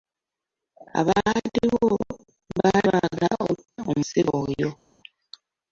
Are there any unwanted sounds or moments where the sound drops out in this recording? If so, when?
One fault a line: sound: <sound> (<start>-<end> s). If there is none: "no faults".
no faults